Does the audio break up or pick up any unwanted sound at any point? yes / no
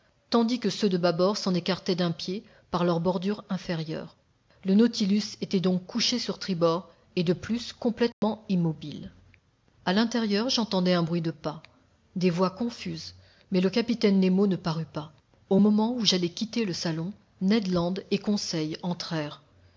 yes